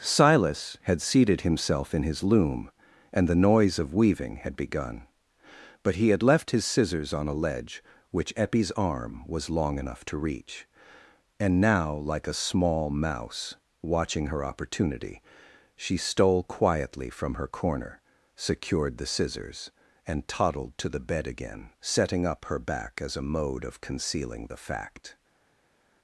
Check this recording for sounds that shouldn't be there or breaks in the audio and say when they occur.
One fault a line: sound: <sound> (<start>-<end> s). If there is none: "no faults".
no faults